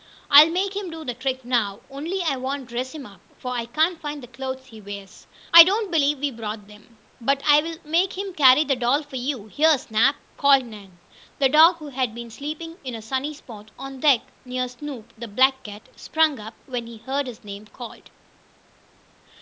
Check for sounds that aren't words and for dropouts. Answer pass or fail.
pass